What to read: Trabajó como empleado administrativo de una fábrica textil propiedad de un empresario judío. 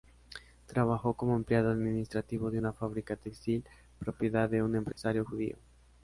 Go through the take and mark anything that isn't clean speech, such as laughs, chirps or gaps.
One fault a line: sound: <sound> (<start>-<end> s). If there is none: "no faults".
sound: dropout (4.9-5.0 s)